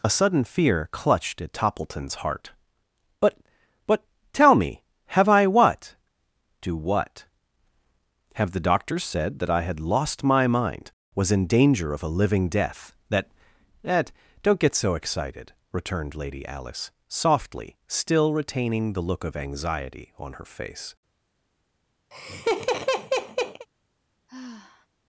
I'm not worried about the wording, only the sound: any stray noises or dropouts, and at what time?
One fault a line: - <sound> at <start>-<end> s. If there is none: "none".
- laugh at 22.1-23.7 s
- sigh at 24.3-24.9 s